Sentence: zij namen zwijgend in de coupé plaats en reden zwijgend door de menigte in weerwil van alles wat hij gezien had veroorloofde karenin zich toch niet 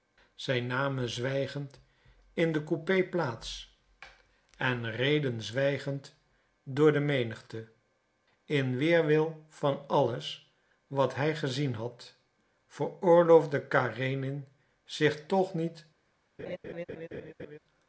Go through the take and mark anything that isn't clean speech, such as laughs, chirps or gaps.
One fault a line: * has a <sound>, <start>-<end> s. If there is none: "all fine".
* has a laugh, 16.4-17.6 s